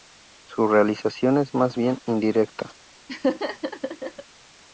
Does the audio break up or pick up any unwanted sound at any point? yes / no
yes